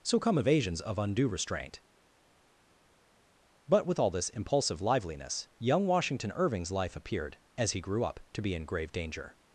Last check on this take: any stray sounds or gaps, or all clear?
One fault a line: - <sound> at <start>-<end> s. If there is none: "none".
none